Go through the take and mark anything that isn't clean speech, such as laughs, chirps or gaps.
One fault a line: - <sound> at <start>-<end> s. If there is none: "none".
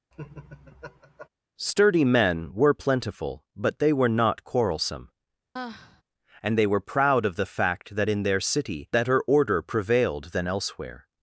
- laugh at 0.1-1.3 s
- sigh at 5.6-6.0 s